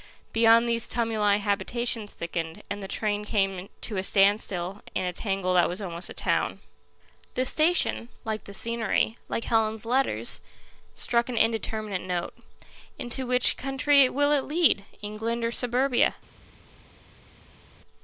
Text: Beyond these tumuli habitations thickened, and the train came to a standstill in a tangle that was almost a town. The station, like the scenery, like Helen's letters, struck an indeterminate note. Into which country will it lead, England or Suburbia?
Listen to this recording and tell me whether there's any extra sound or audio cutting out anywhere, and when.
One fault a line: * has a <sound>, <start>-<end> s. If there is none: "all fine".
all fine